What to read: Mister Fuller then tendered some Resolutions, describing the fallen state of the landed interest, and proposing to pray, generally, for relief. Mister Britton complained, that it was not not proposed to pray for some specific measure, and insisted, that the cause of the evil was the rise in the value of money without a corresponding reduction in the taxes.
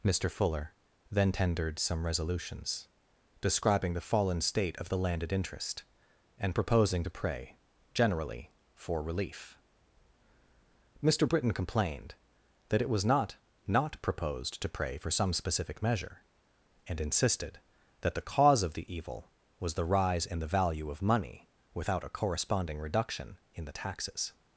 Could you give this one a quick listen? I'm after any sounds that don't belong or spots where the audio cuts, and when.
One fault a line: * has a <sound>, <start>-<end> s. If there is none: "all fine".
all fine